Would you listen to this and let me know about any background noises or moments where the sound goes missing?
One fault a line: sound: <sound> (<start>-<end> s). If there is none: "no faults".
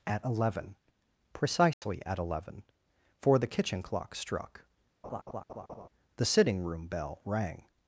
sound: dropout (1.7-1.8 s)
sound: laugh (5.0-5.9 s)